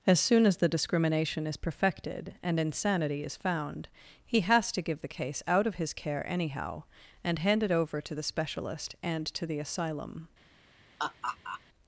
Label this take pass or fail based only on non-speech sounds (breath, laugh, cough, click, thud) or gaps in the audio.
fail